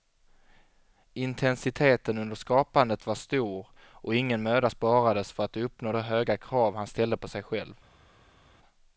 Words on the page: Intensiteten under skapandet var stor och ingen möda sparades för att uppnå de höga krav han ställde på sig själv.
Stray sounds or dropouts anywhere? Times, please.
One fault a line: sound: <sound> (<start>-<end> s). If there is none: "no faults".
no faults